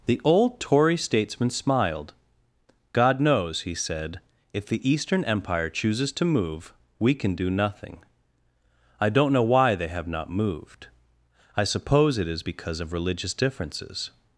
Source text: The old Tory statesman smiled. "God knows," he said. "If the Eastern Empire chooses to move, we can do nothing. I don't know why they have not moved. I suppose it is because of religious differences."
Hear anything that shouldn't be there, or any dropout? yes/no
no